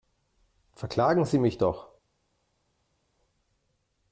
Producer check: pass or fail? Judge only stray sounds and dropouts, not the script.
pass